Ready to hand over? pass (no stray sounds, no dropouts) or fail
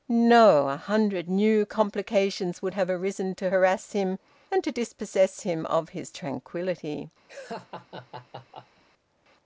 fail